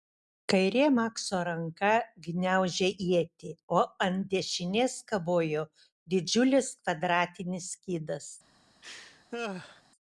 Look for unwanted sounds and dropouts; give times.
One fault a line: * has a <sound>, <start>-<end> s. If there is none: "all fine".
* has a laugh, 8.8-9.8 s